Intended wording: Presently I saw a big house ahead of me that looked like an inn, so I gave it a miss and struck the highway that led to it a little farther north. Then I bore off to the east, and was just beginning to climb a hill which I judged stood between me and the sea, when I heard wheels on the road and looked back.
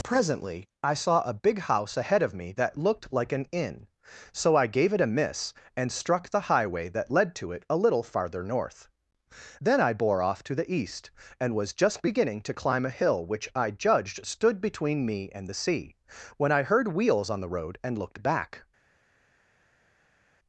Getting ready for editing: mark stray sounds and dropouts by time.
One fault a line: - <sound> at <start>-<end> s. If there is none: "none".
none